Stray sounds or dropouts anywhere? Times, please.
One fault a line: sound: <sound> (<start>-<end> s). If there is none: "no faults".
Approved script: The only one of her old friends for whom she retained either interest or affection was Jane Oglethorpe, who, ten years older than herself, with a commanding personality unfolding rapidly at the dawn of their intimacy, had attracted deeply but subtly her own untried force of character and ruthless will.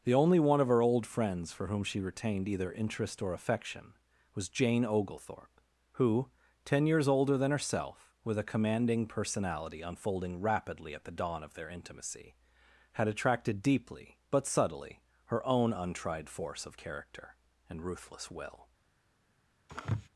sound: sneeze (19.7-20.1 s)